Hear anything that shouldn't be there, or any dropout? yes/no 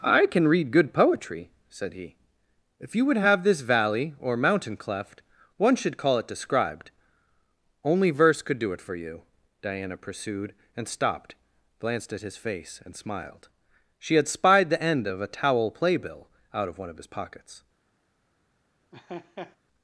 yes